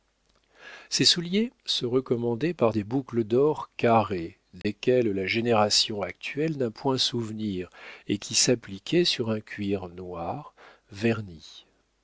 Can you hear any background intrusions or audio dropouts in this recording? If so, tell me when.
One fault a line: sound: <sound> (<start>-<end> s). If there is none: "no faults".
sound: dropout (4.6-4.6 s)